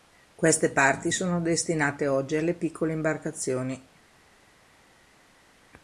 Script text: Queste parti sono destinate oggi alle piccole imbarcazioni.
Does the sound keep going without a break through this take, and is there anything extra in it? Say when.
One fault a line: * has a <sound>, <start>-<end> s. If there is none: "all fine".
all fine